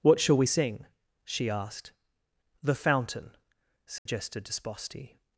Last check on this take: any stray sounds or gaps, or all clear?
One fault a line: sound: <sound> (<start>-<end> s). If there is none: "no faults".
sound: dropout (4.0-4.1 s)